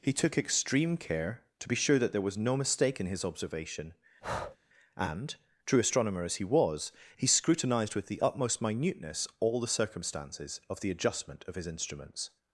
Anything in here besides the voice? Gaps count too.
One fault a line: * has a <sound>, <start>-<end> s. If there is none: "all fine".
* has a breath, 4.2-4.6 s